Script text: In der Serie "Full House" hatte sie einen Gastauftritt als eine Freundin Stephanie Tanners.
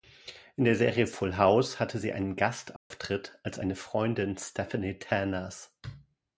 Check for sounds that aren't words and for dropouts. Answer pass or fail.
fail